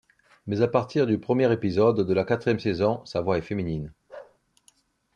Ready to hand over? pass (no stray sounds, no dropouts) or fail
fail